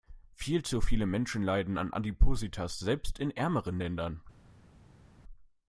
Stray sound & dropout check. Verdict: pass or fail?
pass